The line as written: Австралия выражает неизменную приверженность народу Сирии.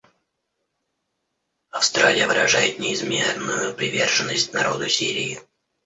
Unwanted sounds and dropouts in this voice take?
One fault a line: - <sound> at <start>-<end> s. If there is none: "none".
none